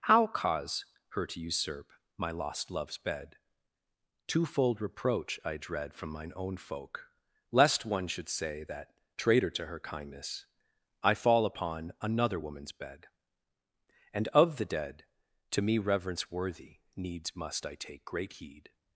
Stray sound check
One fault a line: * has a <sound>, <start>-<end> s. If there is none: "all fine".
all fine